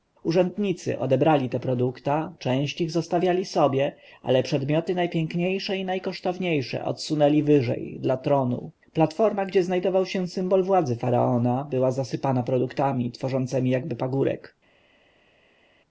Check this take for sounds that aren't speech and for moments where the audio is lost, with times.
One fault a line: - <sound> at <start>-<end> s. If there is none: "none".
none